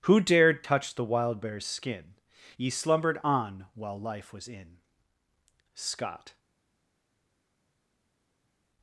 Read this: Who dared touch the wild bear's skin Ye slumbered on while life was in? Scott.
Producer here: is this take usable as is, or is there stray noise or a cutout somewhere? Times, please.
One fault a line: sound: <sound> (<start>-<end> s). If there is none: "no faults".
no faults